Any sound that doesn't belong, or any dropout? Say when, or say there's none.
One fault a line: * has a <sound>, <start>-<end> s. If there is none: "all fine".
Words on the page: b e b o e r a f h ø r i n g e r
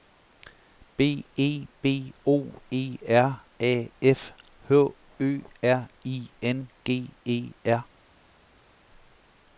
all fine